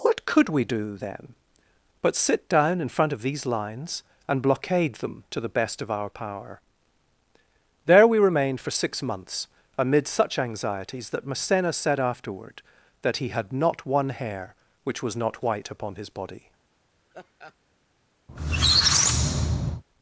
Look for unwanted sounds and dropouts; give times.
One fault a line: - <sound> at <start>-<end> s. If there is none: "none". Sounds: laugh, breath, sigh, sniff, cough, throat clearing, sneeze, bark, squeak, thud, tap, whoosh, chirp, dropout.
- laugh at 17.1-17.6 s
- squeak at 18.3-19.8 s